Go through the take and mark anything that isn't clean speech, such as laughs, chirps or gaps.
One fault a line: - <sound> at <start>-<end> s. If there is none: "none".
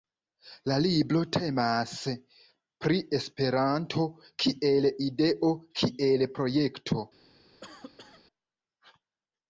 - cough at 7.6-8.2 s